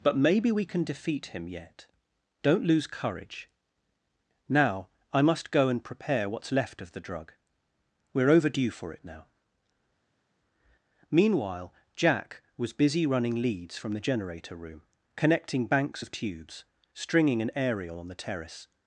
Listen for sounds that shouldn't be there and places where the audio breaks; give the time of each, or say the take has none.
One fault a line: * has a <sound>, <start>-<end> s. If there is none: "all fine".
all fine